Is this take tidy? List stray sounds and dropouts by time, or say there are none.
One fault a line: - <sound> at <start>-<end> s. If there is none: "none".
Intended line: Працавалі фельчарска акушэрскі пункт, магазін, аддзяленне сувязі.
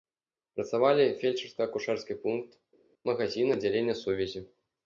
none